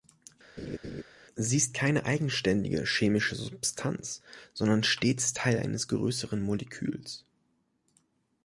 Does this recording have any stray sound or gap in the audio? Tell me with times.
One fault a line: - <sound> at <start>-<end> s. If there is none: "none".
- laugh at 0.6-1.0 s